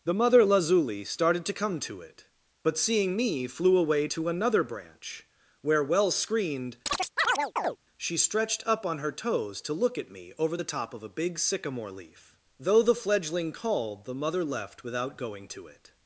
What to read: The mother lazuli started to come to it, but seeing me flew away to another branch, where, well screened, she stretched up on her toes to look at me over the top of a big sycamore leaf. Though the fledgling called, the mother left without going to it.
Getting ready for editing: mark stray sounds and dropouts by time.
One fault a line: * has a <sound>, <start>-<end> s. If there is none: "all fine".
* has a chirp, 6.9-7.8 s